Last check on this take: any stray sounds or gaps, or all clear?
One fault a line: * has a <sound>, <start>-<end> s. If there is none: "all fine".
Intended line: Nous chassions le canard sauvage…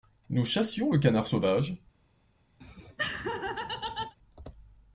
* has a laugh, 2.6-4.2 s